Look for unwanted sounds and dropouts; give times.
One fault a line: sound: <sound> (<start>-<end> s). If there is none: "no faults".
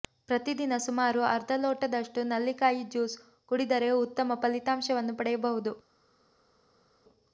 no faults